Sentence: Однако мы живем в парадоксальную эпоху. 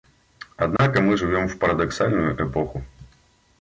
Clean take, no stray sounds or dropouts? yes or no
no